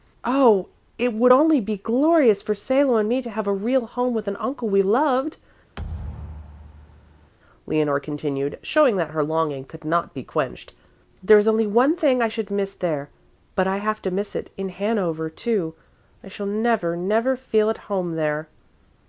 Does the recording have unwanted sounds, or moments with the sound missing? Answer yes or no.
yes